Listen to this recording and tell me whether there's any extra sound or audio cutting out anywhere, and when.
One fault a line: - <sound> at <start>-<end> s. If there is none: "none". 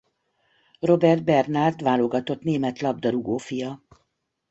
none